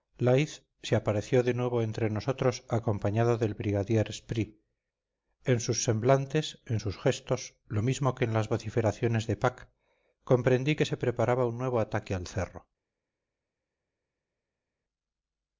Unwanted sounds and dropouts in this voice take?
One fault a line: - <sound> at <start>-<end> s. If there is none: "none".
none